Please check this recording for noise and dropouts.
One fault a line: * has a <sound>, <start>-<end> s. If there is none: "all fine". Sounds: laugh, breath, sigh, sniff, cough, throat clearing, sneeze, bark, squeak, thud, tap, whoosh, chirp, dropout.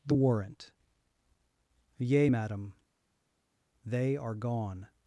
all fine